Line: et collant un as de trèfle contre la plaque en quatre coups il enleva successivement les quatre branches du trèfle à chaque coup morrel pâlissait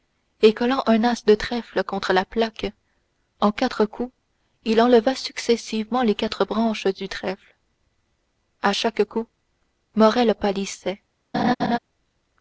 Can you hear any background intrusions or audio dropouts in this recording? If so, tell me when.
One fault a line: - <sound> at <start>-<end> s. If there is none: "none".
- laugh at 11.3-11.8 s